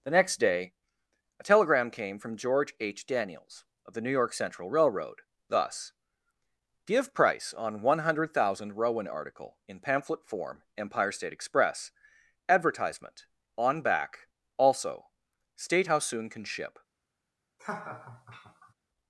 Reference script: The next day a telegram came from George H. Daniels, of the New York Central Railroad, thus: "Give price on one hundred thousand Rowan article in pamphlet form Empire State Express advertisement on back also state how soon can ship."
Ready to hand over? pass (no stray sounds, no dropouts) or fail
fail